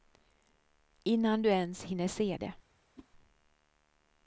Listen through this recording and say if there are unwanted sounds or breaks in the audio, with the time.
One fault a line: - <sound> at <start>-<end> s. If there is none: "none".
- whoosh at 3.0-3.1 s